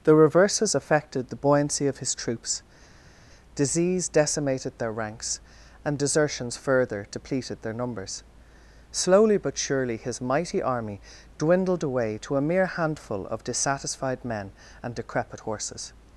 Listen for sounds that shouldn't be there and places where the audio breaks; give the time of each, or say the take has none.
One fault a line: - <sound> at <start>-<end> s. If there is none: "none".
none